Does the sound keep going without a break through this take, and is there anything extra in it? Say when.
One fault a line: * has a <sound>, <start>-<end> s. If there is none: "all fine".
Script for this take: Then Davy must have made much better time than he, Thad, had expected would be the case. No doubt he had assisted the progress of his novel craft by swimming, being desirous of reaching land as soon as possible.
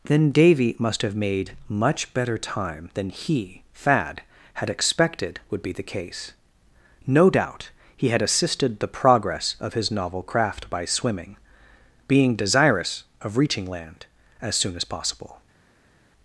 all fine